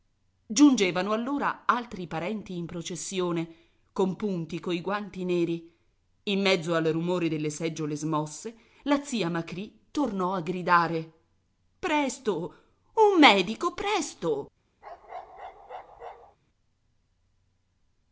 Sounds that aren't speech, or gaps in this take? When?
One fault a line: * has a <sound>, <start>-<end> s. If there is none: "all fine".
* has a bark, 14.8-16.4 s